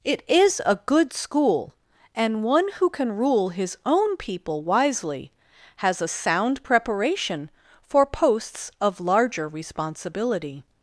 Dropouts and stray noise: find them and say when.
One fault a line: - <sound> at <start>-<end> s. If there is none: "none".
none